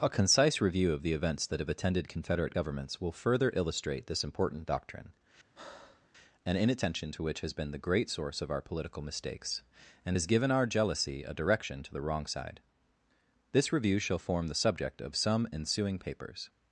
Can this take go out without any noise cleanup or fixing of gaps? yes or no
no